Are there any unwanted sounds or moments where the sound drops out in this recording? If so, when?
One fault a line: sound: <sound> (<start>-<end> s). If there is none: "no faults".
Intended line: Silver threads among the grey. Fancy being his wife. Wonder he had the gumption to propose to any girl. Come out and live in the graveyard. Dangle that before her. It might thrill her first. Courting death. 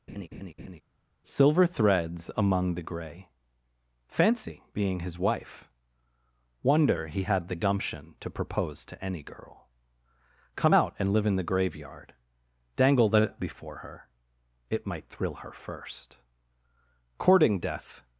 sound: laugh (0.1-0.8 s)